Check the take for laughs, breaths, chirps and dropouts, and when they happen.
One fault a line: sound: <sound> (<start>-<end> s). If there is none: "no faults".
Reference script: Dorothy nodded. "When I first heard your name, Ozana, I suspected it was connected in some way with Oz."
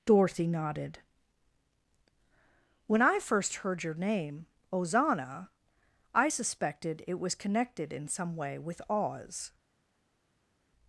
no faults